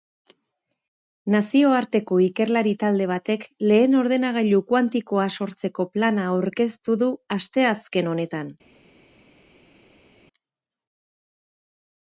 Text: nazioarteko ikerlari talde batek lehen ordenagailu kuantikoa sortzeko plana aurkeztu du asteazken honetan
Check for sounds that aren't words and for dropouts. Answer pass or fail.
pass